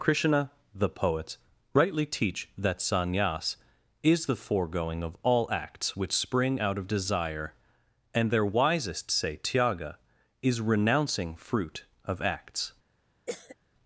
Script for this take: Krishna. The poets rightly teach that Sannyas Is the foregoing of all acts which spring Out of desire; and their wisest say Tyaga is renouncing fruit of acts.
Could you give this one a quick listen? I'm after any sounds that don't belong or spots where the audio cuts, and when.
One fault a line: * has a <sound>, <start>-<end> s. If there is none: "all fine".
* has a cough, 13.3-13.6 s